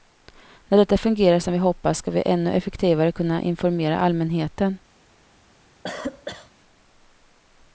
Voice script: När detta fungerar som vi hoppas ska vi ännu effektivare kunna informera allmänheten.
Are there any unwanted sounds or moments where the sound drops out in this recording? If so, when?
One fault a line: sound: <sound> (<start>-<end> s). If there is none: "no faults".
sound: cough (5.8-6.5 s)